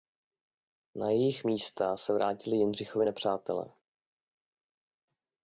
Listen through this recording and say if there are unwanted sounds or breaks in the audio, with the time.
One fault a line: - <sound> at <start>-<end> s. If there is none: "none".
none